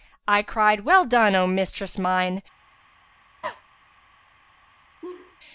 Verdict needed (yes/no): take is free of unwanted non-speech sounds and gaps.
no